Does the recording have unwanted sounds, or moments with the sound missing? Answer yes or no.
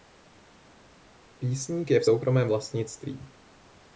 no